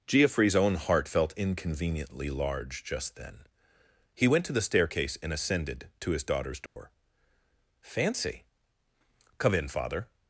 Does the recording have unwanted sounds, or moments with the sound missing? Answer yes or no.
yes